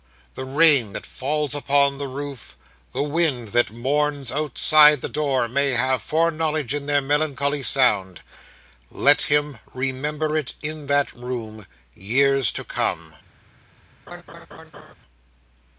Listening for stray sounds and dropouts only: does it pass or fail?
fail